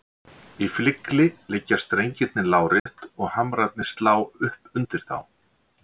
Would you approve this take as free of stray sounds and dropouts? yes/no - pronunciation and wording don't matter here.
no